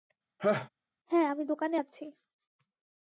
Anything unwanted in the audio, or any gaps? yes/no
yes